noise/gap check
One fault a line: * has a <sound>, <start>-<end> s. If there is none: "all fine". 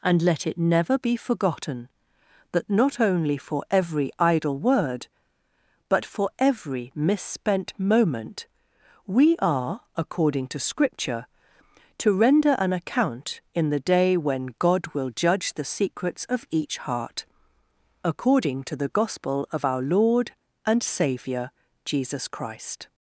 all fine